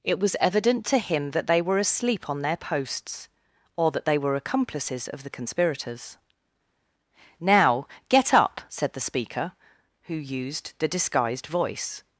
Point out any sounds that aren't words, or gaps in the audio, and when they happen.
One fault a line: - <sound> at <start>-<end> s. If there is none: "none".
none